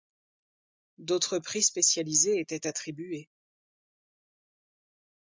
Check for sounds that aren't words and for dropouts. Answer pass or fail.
pass